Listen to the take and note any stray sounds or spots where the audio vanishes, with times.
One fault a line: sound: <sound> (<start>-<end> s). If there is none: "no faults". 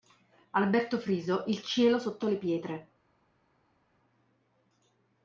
no faults